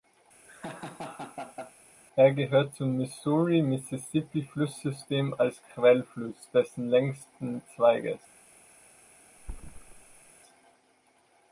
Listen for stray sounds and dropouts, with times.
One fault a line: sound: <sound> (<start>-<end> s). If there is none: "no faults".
sound: laugh (0.4-1.7 s)
sound: thud (9.4-10.3 s)